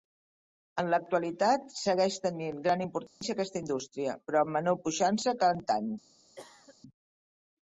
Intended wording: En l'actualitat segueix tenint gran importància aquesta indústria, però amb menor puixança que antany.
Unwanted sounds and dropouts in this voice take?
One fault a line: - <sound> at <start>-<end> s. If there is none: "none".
- dropout at 3.1-3.2 s
- cough at 6.4-6.8 s